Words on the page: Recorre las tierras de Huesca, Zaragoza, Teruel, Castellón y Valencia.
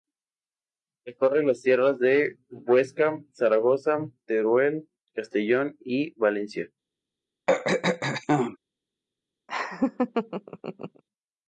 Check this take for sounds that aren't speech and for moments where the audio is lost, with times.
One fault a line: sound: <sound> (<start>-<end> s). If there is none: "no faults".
sound: throat clearing (7.5-8.6 s)
sound: laugh (9.5-11.0 s)